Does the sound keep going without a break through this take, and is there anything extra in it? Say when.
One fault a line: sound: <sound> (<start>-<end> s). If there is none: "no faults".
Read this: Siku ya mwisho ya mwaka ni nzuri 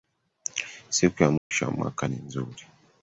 sound: dropout (1.4-1.5 s)